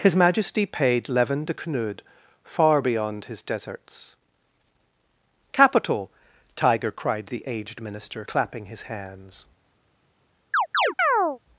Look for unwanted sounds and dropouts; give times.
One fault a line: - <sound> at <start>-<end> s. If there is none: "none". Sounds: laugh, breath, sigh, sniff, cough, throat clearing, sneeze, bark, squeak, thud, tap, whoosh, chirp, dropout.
- chirp at 10.5-11.4 s